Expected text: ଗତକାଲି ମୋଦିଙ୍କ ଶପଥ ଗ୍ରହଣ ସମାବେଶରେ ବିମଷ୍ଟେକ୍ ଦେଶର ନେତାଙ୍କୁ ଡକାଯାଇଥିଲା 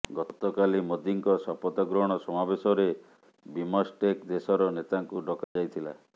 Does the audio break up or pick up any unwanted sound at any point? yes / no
yes